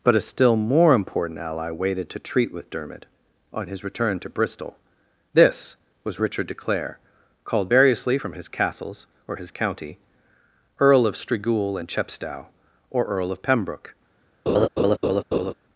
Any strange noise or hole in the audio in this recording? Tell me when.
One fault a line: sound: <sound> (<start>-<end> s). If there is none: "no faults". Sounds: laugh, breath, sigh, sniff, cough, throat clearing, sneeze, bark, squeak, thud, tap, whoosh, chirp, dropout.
sound: laugh (14.5-15.5 s)